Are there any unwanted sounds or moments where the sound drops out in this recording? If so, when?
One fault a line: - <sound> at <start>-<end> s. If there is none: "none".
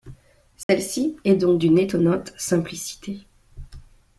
- dropout at 0.6-0.7 s